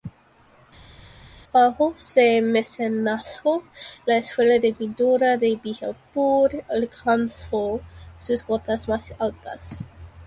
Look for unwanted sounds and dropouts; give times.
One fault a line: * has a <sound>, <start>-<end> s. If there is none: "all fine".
all fine